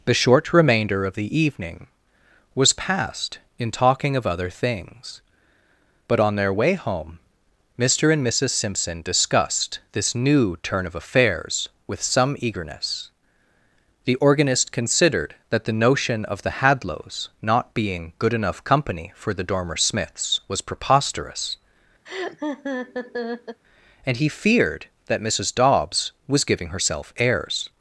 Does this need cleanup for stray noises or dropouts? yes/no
yes